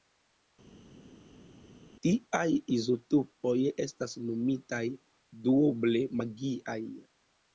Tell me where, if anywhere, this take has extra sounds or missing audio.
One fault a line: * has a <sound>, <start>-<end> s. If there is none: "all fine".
all fine